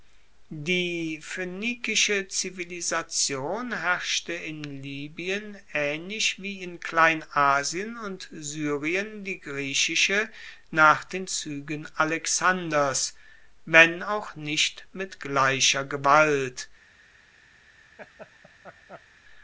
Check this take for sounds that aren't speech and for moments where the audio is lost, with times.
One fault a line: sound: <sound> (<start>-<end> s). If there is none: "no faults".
sound: laugh (18.0-19.1 s)